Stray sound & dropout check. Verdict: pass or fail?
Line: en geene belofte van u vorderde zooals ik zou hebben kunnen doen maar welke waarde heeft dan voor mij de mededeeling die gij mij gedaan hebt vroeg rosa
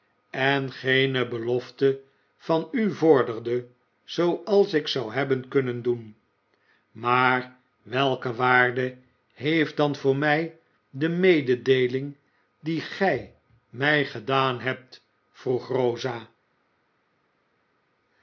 pass